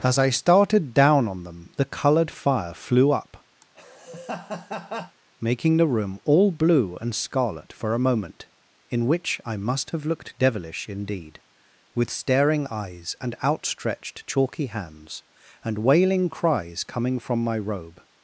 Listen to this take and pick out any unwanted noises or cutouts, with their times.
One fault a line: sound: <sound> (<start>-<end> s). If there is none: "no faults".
sound: laugh (3.6-5.2 s)